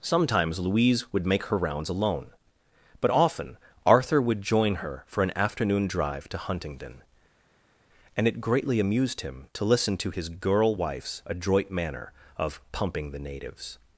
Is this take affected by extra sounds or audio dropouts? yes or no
no